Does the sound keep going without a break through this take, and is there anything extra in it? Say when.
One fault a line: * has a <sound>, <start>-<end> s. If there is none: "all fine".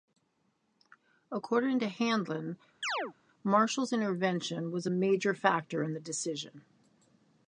* has a chirp, 2.8-3.1 s